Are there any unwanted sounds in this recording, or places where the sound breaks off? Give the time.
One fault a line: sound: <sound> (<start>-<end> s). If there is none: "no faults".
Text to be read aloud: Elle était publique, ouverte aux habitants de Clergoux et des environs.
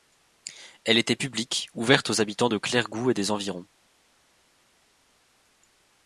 no faults